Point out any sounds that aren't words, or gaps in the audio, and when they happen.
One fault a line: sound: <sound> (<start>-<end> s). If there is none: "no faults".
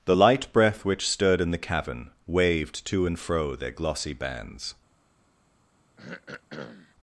sound: throat clearing (6.0-7.0 s)